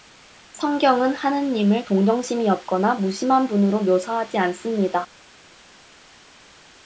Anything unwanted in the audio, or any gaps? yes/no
no